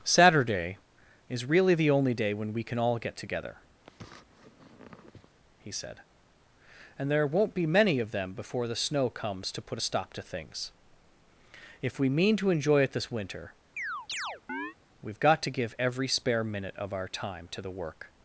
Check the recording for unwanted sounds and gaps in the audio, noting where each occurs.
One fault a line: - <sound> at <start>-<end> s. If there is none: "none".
- sniff at 3.8-5.3 s
- chirp at 13.8-14.8 s